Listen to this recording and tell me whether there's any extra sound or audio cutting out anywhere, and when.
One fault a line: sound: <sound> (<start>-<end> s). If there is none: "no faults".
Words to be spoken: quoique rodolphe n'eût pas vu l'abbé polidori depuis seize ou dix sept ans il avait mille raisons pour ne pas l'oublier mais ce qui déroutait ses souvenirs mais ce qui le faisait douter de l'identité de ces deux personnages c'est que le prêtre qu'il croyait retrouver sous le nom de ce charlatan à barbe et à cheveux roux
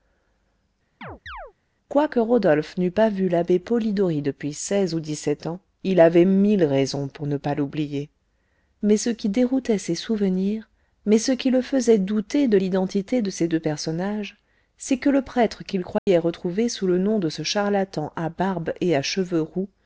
sound: chirp (1.0-1.5 s)
sound: dropout (16.0-16.1 s)